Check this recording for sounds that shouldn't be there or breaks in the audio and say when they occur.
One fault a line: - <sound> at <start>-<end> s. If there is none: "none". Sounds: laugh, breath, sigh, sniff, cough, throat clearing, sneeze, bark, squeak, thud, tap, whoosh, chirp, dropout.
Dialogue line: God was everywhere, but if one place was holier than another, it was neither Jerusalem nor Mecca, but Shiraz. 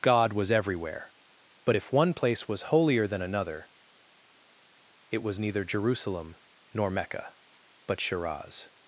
none